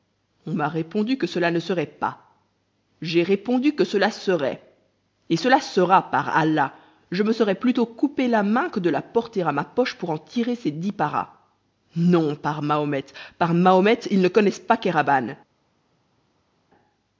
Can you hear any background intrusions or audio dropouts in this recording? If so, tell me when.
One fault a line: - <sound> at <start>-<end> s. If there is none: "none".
none